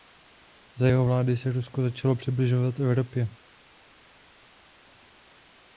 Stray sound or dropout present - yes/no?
no